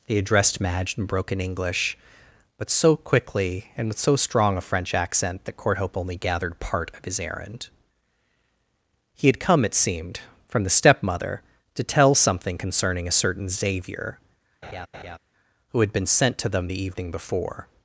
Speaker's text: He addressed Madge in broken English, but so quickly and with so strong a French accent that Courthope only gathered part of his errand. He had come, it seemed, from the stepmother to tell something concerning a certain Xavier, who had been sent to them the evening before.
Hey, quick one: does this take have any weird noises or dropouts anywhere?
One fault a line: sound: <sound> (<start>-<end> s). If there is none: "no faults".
sound: laugh (14.6-15.2 s)